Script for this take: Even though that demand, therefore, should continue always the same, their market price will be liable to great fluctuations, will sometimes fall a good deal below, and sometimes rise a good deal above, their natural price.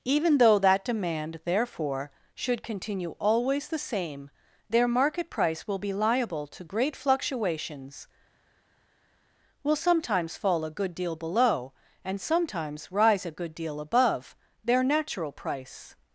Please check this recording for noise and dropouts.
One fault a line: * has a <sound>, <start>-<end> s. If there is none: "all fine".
all fine